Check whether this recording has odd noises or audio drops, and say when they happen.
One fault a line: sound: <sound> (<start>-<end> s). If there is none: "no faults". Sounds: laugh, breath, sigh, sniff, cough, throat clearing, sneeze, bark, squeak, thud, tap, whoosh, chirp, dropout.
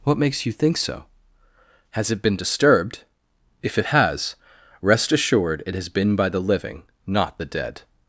no faults